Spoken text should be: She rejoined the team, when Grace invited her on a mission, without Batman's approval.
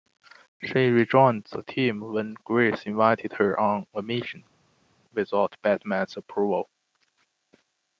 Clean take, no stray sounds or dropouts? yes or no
yes